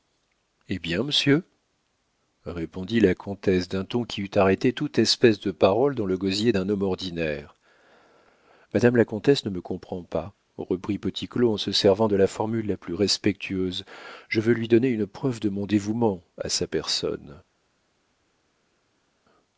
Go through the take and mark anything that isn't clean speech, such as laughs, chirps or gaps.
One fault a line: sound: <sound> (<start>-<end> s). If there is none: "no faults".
no faults